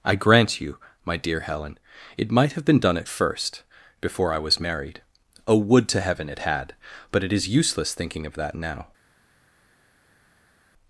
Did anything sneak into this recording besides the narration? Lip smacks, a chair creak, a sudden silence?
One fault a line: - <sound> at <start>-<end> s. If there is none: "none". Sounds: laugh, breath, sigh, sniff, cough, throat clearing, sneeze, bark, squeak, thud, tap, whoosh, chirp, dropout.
none